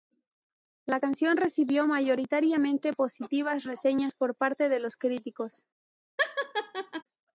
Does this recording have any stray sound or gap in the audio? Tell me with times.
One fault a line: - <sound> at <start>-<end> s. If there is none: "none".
- laugh at 6.2-7.0 s